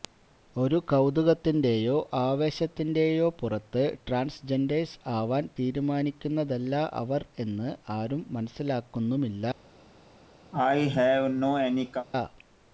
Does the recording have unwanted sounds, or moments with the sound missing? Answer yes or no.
yes